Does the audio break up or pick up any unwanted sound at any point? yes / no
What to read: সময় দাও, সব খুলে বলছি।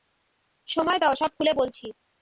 no